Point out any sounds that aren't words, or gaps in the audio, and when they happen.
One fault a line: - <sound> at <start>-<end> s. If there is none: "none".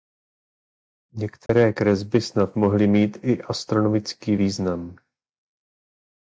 - dropout at 1.5-1.5 s